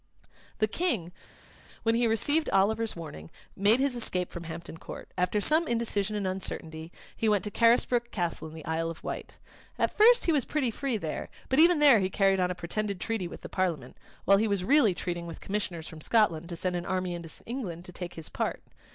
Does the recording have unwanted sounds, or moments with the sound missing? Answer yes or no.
no